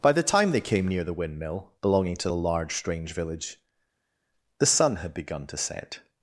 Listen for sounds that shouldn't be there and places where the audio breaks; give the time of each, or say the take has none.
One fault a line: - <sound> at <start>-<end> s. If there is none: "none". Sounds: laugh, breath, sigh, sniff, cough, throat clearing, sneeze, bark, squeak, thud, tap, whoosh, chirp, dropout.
none